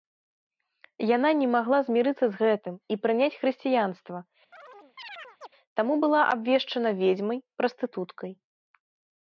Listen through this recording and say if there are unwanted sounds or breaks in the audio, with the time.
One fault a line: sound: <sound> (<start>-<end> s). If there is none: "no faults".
sound: chirp (4.5-5.5 s)